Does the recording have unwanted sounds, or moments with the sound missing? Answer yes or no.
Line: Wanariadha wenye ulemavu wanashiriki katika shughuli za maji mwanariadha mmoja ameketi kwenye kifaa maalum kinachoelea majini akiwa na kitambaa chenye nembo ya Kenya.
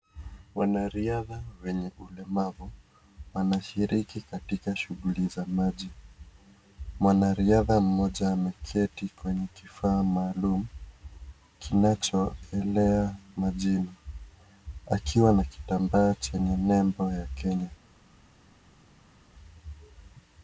no